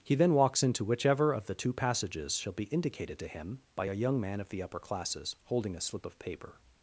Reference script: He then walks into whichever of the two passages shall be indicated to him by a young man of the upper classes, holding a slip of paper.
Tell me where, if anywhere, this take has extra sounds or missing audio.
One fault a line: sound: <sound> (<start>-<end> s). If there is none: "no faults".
no faults